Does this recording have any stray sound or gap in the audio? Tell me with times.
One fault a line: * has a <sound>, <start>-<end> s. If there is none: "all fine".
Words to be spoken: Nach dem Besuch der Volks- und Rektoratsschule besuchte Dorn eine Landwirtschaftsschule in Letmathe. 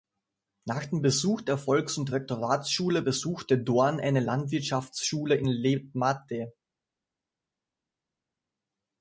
all fine